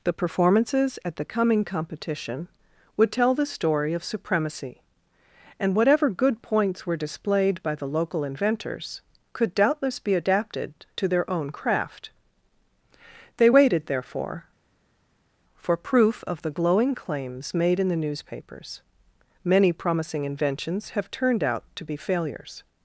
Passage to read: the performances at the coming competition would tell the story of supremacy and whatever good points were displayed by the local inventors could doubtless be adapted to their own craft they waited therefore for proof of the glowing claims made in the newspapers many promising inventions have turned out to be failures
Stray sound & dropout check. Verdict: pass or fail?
pass